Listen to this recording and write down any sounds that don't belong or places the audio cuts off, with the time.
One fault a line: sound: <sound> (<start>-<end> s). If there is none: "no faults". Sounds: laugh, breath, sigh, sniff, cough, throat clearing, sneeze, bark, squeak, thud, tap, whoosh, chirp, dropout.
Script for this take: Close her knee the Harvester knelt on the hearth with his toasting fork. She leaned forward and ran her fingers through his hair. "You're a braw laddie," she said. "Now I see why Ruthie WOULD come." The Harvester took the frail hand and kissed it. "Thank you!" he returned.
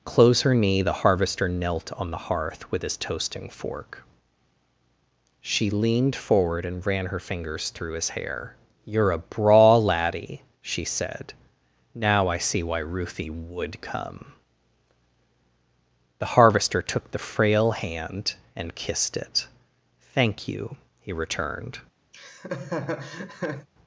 sound: laugh (22.1-23.7 s)